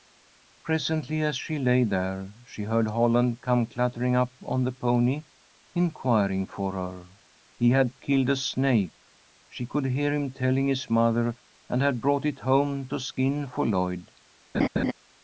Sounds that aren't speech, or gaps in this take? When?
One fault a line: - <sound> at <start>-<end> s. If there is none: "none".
- laugh at 14.5-14.9 s